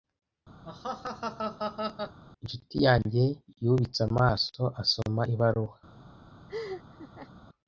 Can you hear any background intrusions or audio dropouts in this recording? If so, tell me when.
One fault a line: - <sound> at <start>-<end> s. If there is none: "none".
- laugh at 0.6-2.2 s
- laugh at 6.5-7.3 s